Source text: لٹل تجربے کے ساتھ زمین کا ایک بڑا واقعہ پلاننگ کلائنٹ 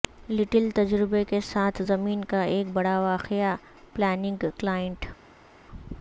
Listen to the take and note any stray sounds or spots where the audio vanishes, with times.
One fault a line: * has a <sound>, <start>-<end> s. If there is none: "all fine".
all fine